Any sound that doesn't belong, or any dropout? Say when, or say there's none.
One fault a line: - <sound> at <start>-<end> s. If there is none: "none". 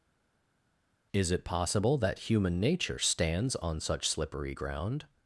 none